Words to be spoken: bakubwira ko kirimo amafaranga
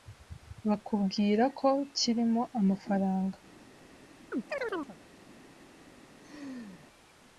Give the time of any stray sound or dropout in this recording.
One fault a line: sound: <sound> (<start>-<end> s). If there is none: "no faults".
sound: chirp (4.3-5.0 s)
sound: laugh (6.2-6.9 s)